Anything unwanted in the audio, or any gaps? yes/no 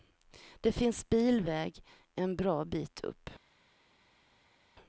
no